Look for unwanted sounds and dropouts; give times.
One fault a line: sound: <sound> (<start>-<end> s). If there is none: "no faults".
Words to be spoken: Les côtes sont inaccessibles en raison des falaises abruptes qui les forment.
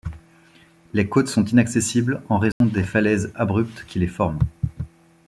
sound: dropout (2.5-2.6 s)